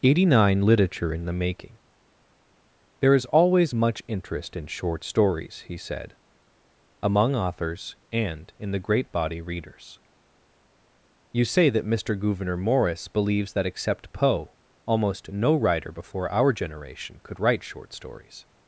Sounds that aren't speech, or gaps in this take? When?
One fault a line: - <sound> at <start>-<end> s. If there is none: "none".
none